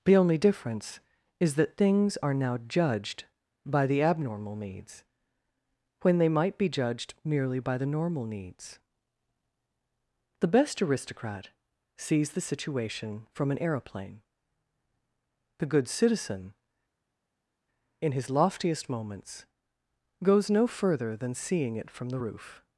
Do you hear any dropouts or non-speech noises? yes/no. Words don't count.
no